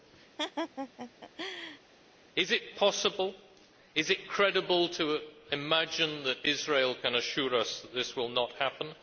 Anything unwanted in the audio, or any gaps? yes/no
yes